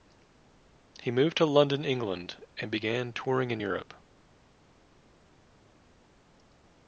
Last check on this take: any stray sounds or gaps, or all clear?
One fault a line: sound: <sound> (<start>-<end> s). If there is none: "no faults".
no faults